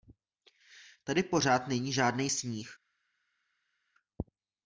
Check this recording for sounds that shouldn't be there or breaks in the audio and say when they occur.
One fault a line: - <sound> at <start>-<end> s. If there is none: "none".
none